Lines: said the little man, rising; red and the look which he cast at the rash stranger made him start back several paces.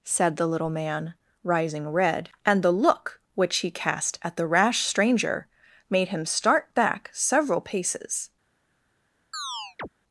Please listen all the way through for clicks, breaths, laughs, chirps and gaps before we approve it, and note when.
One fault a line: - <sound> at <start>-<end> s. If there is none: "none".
- chirp at 9.3-9.9 s